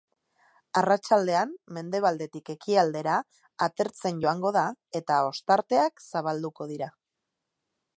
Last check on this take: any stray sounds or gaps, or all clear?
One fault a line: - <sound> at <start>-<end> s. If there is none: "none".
none